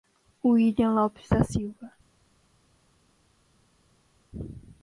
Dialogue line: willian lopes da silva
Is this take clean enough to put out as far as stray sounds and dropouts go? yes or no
yes